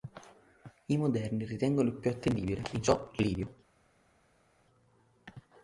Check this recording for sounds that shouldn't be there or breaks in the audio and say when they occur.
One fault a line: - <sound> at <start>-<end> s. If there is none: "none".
none